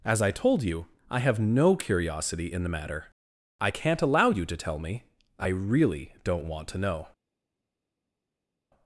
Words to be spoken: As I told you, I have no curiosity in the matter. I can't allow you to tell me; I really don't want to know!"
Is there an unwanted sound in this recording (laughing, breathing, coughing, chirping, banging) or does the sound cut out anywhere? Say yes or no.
no